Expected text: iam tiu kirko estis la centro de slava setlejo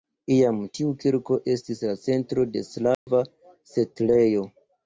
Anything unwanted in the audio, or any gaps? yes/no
yes